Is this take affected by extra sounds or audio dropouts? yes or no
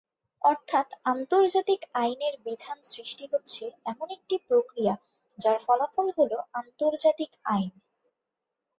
no